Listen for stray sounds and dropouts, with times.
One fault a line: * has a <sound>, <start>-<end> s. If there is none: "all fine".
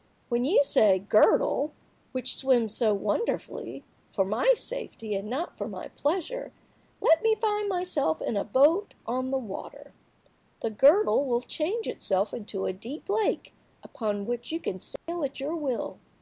* has a dropout, 15.0-15.1 s